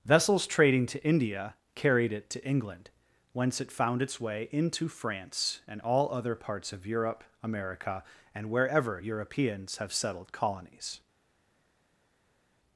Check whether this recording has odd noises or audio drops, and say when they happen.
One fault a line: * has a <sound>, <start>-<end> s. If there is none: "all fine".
all fine